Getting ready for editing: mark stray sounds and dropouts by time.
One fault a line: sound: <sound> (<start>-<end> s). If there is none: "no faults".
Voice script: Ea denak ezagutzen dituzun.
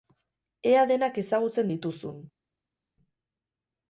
no faults